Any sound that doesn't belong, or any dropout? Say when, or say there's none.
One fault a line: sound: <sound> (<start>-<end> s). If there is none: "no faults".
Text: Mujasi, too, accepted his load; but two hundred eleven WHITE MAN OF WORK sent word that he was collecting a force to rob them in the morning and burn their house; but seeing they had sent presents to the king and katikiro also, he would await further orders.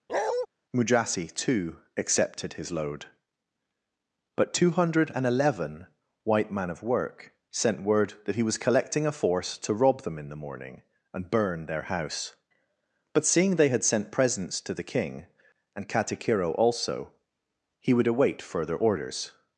sound: bark (0.1-0.5 s)